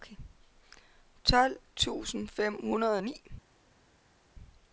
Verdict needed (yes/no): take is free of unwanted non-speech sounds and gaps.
yes